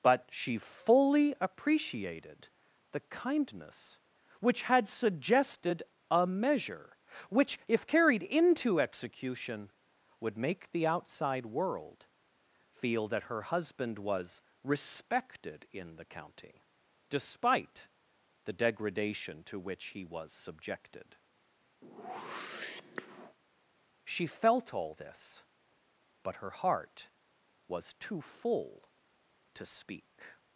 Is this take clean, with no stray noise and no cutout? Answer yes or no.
no